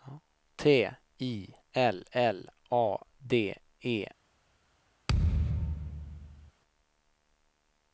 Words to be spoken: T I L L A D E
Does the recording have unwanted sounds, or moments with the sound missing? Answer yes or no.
yes